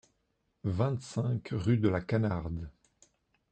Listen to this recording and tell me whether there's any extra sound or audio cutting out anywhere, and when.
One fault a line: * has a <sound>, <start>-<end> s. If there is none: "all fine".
all fine